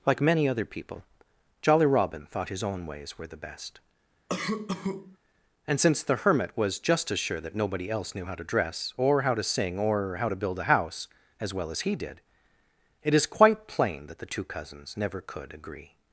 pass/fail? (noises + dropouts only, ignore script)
fail